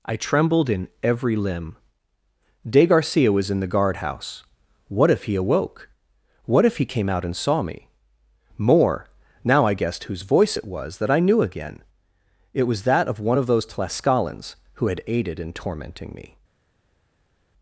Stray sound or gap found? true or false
false